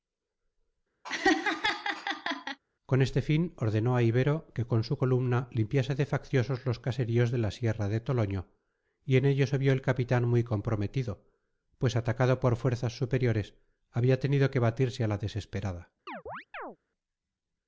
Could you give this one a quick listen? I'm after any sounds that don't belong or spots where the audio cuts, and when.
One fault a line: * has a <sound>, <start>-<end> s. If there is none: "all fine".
* has a laugh, 1.0-2.6 s
* has a chirp, 16.1-16.8 s